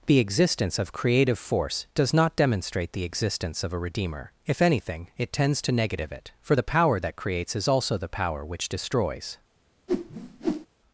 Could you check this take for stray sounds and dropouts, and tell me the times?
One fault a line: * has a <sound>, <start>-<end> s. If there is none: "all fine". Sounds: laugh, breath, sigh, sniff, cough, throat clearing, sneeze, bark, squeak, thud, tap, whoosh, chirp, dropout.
* has a whoosh, 9.9-10.7 s